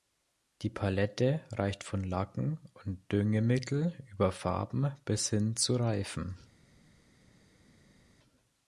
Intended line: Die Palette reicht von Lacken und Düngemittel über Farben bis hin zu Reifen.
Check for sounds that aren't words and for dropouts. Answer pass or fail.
pass